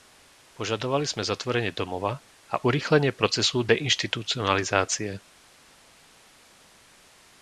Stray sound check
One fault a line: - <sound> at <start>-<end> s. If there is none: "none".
none